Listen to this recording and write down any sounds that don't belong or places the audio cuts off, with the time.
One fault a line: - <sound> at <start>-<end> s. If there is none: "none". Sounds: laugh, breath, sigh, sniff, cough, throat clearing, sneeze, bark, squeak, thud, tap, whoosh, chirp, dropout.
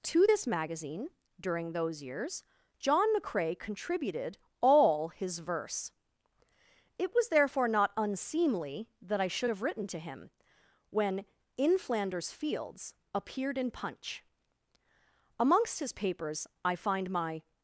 none